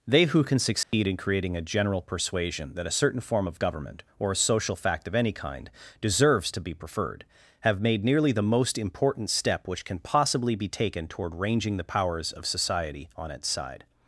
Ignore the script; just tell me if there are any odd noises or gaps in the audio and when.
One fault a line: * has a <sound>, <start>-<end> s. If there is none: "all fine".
* has a dropout, 0.8-0.9 s